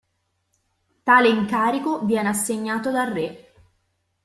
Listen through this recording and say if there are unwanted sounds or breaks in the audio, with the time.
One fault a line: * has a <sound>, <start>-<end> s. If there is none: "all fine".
all fine